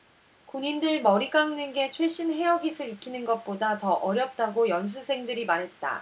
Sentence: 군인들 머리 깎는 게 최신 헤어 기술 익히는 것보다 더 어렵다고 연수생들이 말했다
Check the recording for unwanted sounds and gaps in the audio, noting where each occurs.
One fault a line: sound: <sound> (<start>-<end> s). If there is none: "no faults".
no faults